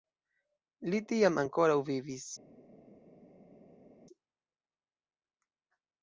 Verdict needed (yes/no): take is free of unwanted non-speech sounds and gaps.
yes